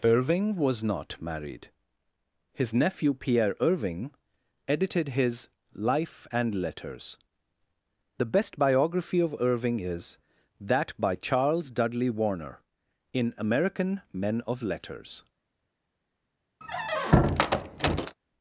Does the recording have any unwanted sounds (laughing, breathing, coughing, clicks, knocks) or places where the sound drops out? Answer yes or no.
yes